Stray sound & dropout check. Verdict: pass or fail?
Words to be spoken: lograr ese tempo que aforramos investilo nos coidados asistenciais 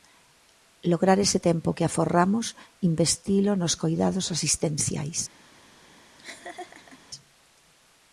fail